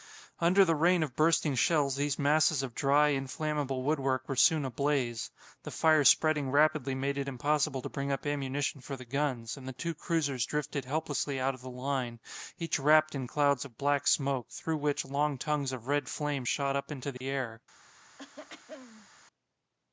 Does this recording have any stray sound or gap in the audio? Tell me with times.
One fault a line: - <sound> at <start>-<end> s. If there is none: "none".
- dropout at 17.2-17.2 s
- throat clearing at 18.2-19.1 s